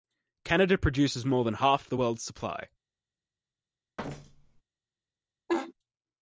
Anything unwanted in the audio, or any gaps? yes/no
yes